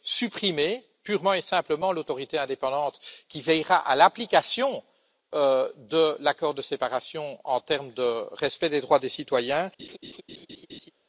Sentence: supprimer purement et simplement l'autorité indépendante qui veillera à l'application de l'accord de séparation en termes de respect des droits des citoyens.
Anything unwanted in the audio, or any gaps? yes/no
yes